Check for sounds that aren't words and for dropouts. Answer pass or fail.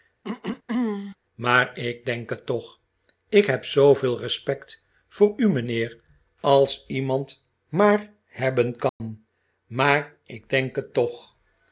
fail